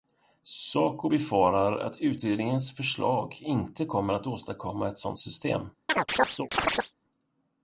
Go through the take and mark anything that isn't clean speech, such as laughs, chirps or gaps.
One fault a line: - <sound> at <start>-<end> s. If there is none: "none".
- chirp at 5.9-6.9 s